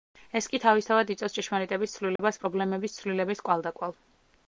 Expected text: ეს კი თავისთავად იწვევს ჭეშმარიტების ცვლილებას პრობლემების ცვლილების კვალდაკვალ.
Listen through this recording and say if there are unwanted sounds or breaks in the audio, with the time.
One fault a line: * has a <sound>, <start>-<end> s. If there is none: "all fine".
* has a dropout, 2.2-2.2 s